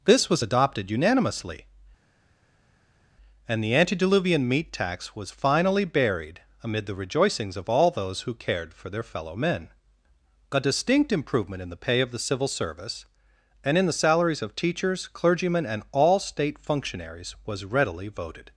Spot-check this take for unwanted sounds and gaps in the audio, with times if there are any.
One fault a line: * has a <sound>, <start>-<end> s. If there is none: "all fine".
all fine